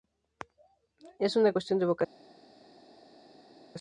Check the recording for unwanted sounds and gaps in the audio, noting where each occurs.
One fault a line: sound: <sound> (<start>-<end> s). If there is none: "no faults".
no faults